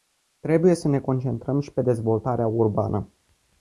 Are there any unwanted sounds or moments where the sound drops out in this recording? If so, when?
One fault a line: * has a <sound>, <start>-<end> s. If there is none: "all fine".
all fine